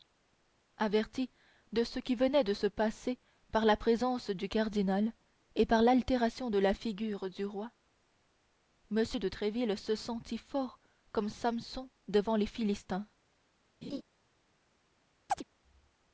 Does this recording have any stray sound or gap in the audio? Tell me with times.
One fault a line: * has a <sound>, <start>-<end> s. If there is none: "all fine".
* has a laugh, 13.8-14.0 s
* has a chirp, 15.3-15.4 s